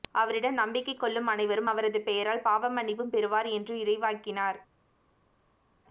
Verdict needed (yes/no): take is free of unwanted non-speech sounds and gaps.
yes